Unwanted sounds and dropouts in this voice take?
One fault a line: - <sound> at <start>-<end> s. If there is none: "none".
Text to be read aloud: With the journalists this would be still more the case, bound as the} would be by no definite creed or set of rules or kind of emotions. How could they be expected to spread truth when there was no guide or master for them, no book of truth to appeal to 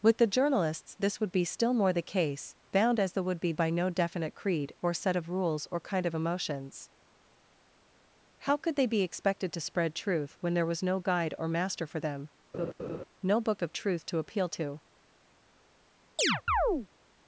- laugh at 12.5-13.0 s
- chirp at 16.2-16.9 s